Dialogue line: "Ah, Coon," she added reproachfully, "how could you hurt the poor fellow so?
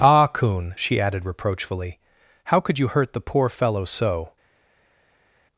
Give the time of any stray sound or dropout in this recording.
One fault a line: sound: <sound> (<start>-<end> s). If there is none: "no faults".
no faults